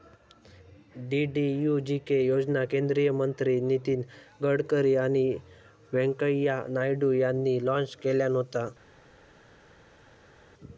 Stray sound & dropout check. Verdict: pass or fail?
pass